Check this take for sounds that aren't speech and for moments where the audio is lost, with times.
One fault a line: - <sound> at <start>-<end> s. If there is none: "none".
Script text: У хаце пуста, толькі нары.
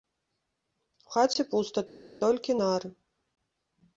none